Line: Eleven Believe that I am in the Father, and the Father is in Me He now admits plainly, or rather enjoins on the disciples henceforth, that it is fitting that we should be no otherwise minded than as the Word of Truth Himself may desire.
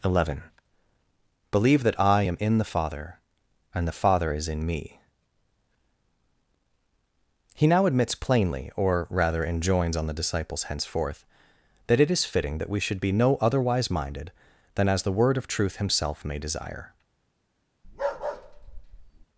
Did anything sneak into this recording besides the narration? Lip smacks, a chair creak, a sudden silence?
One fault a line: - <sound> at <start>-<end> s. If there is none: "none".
- bark at 17.8-19.3 s